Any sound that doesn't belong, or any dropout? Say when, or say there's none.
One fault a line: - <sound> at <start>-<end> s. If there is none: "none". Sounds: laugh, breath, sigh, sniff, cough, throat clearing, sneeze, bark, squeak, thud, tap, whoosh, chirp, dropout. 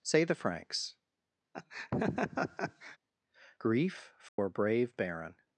- laugh at 1.5-3.0 s
- dropout at 4.3-4.4 s